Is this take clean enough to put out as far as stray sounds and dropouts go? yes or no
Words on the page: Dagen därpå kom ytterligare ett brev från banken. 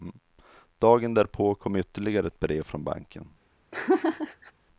no